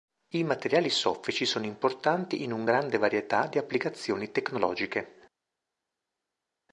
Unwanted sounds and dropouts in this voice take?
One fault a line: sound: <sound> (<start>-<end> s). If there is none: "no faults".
no faults